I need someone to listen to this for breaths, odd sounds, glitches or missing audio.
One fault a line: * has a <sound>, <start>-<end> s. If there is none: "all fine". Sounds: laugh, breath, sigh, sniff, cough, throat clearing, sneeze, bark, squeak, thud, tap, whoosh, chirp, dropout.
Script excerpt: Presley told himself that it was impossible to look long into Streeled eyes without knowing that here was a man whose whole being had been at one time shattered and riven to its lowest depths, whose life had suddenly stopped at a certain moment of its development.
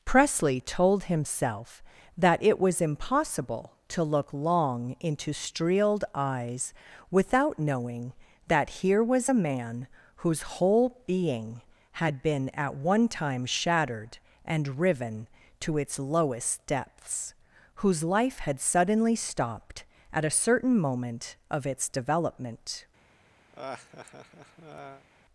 * has a laugh, 23.5-25.1 s